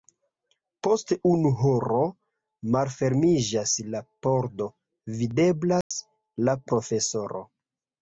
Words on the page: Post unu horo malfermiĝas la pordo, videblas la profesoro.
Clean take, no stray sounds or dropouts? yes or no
no